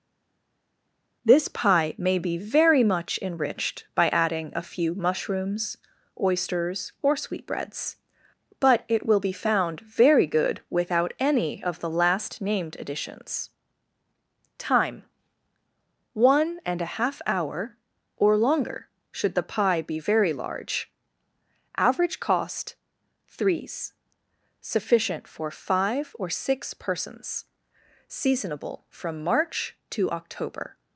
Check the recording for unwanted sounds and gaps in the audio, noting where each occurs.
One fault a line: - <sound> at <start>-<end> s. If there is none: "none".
none